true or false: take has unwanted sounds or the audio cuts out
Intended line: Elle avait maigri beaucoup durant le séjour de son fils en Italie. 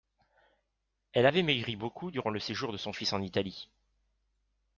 false